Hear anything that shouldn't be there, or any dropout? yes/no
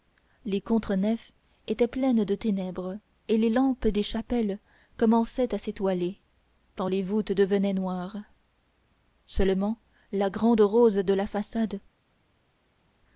no